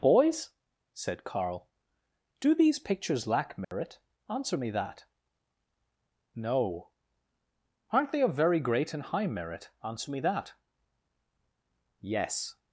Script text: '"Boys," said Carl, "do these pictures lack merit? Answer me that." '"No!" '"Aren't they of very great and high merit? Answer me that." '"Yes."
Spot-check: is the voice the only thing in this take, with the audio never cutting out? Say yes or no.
no